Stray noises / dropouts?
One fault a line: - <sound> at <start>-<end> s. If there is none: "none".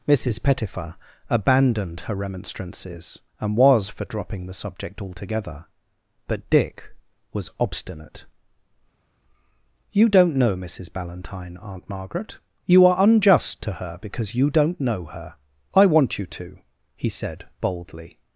none